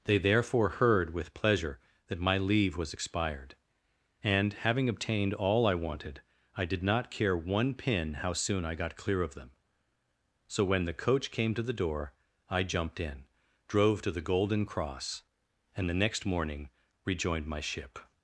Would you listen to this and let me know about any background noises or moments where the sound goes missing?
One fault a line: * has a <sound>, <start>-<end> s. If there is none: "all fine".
all fine